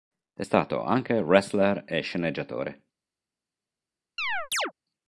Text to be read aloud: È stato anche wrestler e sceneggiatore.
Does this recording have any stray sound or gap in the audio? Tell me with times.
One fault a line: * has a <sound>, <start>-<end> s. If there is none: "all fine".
* has a chirp, 4.2-4.7 s